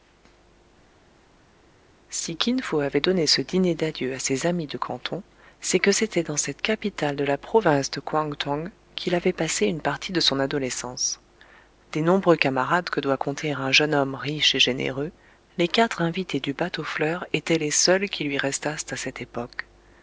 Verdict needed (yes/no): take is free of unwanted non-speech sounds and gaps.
yes